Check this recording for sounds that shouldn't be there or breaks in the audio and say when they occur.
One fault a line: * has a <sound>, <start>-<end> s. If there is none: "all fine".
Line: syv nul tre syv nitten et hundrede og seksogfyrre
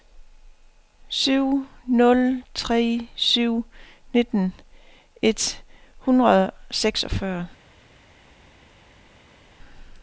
all fine